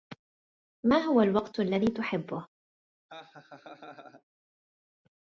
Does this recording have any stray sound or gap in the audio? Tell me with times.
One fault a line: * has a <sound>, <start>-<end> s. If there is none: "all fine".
* has a laugh, 3.1-4.2 s